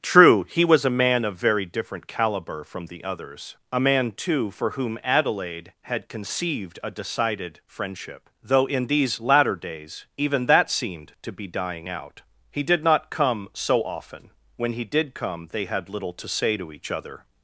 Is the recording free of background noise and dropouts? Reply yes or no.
yes